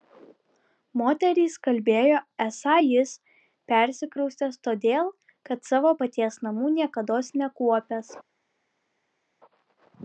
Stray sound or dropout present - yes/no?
no